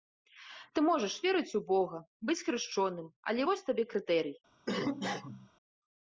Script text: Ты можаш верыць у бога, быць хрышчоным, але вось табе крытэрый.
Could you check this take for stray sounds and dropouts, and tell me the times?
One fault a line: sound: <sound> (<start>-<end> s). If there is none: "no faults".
sound: cough (4.7-5.5 s)